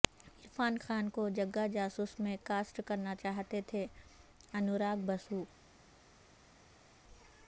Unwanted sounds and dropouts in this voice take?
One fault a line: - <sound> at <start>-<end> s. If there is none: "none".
none